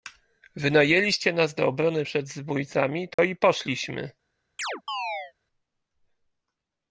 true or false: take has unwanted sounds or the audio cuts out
true